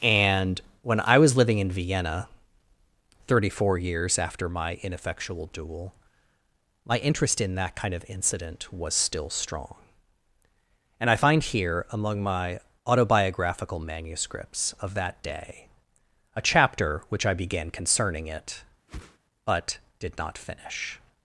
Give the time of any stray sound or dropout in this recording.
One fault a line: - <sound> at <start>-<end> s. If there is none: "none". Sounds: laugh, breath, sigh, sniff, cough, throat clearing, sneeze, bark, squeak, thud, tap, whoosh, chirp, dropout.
- whoosh at 18.9-19.2 s